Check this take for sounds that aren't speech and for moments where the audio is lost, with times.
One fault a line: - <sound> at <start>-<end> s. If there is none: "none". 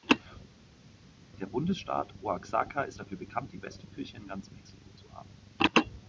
none